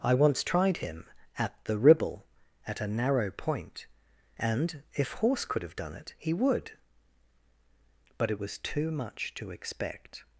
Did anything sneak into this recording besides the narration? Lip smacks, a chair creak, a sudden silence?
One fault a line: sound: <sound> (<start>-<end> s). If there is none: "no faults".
no faults